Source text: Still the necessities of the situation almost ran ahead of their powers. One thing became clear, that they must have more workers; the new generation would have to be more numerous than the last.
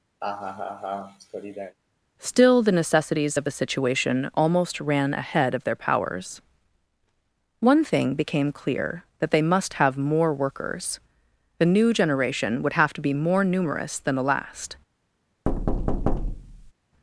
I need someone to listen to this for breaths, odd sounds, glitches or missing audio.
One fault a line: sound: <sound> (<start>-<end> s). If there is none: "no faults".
sound: laugh (0.2-1.8 s)
sound: thud (15.5-16.7 s)